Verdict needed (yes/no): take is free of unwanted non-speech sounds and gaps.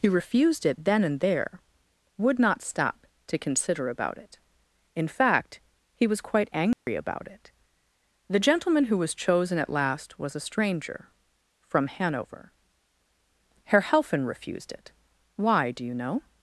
no